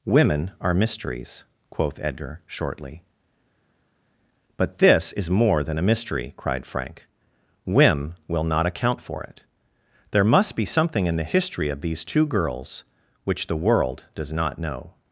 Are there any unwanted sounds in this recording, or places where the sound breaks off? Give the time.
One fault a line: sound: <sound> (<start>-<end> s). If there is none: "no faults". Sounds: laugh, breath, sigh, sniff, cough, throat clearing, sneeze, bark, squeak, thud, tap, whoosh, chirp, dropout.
no faults